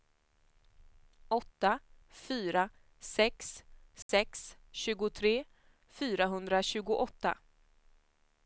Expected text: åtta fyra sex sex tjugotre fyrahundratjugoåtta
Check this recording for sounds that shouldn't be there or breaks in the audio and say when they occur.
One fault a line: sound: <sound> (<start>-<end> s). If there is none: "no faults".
sound: dropout (4.0-4.1 s)